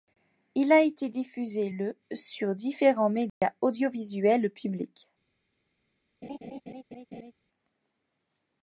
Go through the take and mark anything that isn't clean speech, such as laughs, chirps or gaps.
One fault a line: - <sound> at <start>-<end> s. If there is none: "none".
- dropout at 3.3-3.4 s
- laugh at 6.2-7.3 s